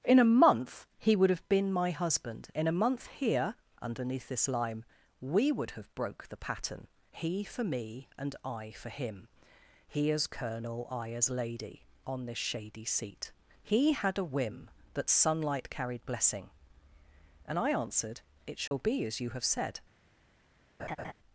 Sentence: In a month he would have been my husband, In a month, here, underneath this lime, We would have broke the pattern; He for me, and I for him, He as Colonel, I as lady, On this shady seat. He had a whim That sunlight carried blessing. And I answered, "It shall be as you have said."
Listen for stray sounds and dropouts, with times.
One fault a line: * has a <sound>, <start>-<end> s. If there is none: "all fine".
* has a dropout, 18.7-18.7 s
* has a laugh, 20.8-21.1 s